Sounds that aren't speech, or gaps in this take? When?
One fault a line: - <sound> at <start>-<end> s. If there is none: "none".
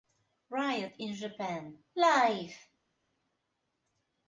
none